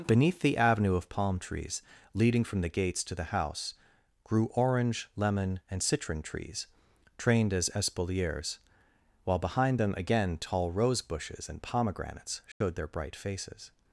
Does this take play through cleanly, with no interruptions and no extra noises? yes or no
no